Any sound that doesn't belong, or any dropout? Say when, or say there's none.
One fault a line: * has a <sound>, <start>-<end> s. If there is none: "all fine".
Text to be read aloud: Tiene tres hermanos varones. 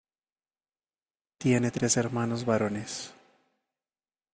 all fine